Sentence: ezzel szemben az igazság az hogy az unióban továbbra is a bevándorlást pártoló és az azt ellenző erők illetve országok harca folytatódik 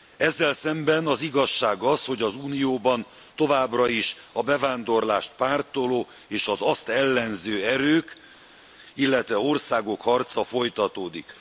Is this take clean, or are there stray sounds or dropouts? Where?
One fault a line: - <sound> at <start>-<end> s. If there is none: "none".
none